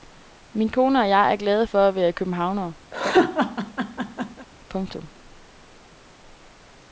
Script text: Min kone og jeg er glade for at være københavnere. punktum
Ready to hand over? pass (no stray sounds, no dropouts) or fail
fail